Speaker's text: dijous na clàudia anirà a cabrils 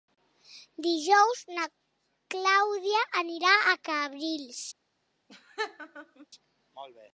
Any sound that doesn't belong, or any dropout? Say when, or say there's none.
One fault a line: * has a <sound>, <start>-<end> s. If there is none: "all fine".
* has a laugh, 5.3-6.3 s